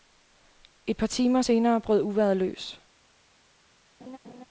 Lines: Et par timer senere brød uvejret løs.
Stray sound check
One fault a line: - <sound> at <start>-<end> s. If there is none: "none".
- laugh at 4.0-4.5 s